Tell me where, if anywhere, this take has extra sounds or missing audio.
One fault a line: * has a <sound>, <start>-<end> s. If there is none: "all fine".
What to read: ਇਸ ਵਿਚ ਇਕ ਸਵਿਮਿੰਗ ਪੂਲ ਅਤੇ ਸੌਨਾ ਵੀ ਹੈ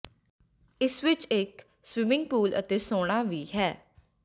all fine